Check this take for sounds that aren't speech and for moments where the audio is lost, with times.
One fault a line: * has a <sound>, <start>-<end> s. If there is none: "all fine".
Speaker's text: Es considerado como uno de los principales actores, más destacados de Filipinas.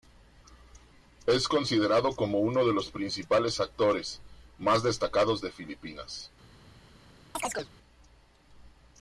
* has a chirp, 7.3-7.7 s